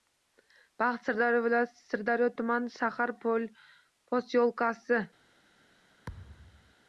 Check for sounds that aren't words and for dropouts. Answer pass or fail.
fail